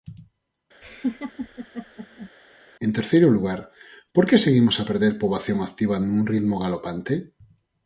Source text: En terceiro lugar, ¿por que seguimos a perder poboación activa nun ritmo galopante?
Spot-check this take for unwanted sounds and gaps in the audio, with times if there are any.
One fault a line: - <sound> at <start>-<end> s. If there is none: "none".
- laugh at 0.8-2.3 s